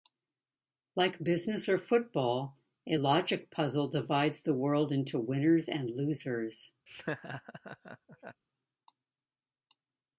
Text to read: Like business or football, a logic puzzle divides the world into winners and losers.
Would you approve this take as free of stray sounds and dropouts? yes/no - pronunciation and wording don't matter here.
no